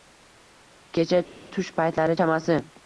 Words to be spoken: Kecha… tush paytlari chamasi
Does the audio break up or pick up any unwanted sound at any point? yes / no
no